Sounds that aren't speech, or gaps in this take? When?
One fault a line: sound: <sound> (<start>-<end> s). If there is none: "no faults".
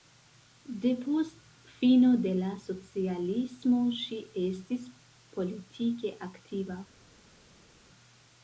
no faults